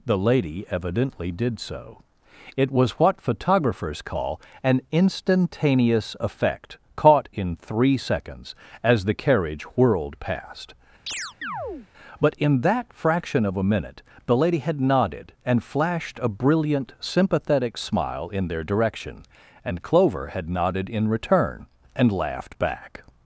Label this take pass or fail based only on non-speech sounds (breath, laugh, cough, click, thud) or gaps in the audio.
fail